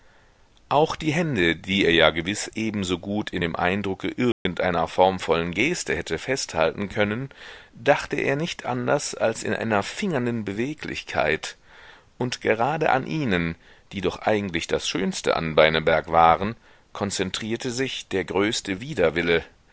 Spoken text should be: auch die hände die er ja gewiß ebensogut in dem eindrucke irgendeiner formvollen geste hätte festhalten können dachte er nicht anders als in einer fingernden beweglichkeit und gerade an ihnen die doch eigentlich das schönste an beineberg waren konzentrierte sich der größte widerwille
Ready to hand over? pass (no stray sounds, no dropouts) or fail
fail